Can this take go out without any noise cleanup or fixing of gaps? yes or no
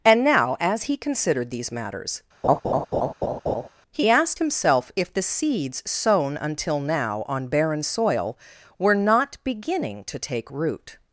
no